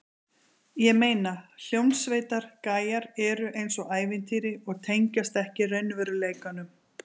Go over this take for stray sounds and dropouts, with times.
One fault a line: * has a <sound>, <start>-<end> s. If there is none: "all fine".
all fine